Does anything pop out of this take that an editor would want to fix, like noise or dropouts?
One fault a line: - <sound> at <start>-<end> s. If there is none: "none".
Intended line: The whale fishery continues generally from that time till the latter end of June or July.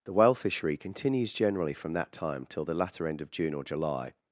none